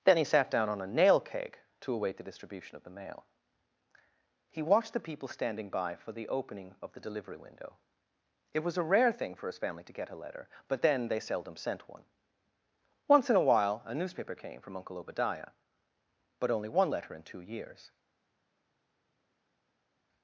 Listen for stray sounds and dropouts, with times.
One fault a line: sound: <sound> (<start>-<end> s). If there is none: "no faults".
no faults